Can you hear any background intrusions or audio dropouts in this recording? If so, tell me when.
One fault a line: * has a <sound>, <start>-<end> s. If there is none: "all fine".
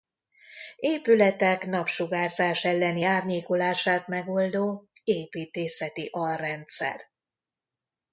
all fine